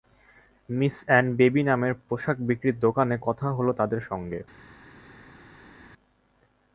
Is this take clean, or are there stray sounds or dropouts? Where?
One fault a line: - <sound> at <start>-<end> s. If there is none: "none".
none